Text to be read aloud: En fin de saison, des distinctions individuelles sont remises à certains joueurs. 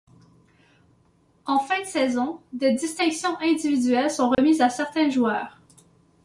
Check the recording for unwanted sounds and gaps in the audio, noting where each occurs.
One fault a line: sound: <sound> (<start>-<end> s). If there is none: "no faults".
sound: dropout (4.3-4.4 s)